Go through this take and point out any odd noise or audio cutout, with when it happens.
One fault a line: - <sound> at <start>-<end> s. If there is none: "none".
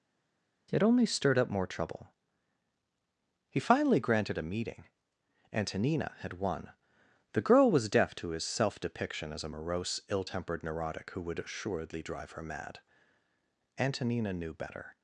none